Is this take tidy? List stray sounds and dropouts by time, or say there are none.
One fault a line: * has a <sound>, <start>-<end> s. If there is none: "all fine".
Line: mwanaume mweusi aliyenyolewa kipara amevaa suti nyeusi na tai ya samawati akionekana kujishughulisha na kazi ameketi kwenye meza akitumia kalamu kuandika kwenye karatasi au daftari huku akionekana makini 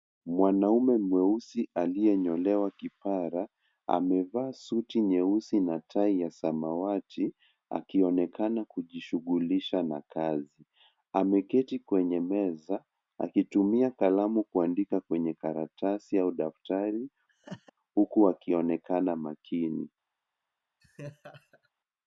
* has a laugh, 17.3-17.7 s
* has a laugh, 20.8-21.7 s